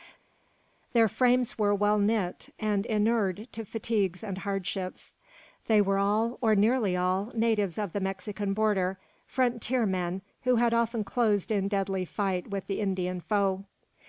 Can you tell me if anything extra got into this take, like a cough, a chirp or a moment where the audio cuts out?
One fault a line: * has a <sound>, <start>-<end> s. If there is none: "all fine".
all fine